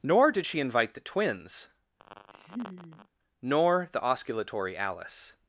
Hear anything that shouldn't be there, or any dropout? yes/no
yes